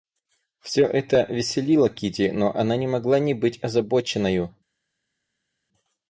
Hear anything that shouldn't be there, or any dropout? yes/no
no